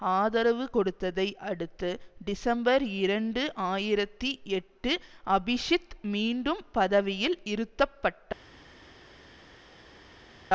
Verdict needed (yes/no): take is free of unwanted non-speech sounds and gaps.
yes